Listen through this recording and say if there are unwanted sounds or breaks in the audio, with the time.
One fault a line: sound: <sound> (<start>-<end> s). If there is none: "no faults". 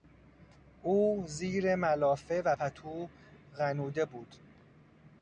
no faults